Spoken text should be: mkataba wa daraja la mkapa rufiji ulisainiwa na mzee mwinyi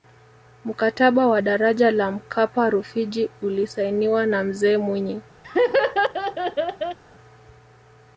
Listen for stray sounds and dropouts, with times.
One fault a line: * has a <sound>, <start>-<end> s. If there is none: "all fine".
* has a laugh, 5.4-7.0 s